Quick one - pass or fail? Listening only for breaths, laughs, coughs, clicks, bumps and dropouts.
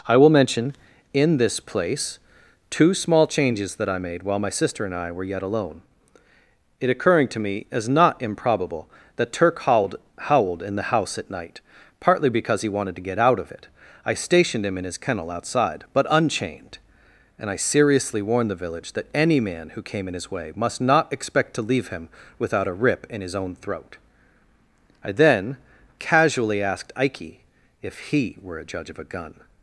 pass